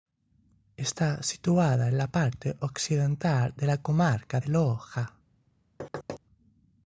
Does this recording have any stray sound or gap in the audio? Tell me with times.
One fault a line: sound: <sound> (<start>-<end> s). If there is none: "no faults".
sound: thud (5.8-6.2 s)